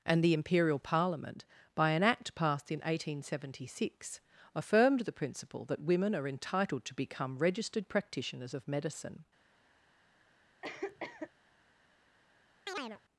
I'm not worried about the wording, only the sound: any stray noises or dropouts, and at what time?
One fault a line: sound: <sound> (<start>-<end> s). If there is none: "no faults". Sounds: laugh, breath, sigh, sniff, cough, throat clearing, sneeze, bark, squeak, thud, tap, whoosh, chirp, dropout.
sound: cough (10.6-11.3 s)
sound: chirp (12.7-13.0 s)